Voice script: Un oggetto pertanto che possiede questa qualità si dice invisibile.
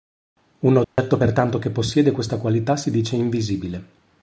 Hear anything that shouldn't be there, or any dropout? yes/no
yes